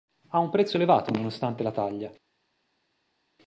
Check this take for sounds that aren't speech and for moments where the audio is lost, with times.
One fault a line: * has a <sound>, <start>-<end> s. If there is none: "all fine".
all fine